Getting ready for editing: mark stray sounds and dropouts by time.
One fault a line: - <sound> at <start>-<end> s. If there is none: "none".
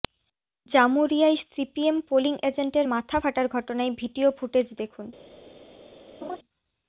- laugh at 6.2-6.4 s